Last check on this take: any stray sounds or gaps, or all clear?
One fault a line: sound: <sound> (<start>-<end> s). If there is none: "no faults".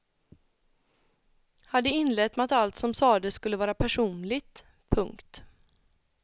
no faults